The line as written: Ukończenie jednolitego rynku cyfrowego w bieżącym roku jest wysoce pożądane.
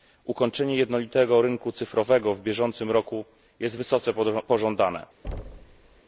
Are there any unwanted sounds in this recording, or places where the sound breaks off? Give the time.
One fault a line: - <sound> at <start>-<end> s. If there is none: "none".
- thud at 5.2-6.0 s